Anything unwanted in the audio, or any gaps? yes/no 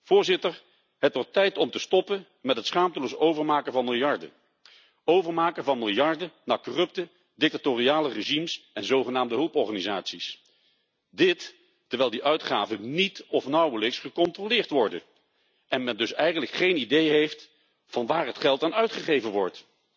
no